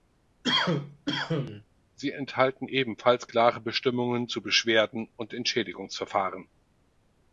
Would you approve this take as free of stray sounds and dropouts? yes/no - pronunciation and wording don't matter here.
no